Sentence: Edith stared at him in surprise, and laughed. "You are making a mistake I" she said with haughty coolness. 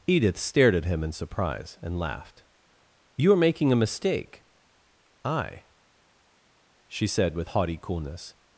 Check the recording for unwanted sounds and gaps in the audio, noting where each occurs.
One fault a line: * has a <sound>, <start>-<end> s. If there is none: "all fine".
all fine